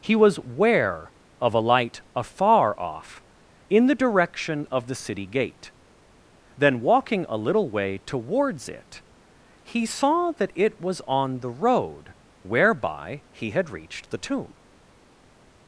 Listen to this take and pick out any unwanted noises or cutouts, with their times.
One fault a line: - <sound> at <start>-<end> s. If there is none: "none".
none